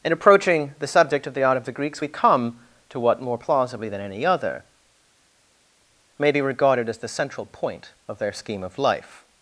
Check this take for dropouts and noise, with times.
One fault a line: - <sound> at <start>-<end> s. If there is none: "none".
none